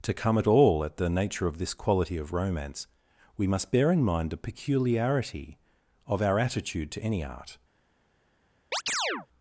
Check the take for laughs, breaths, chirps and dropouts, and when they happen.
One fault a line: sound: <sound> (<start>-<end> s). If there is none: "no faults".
sound: chirp (8.7-9.3 s)